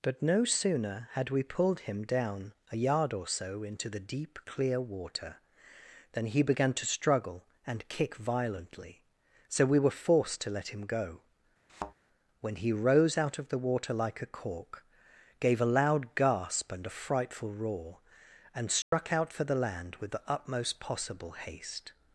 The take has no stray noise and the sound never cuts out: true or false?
false